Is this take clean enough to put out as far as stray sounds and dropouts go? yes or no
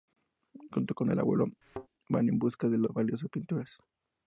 no